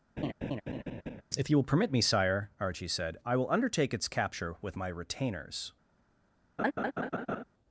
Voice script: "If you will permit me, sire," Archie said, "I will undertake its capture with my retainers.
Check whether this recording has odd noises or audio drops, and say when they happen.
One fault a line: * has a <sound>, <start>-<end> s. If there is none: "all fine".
* has a laugh, 0.2-1.2 s
* has a laugh, 6.6-7.4 s